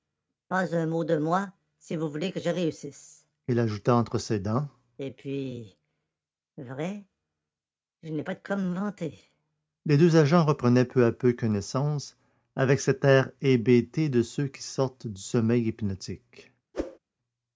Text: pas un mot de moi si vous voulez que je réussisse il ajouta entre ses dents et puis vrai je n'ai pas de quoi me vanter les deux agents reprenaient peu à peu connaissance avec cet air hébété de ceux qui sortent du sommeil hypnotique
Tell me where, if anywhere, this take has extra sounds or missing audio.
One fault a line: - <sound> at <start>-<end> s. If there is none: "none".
- whoosh at 16.7-17.0 s